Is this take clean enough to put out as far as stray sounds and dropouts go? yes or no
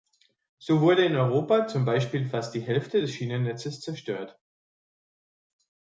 yes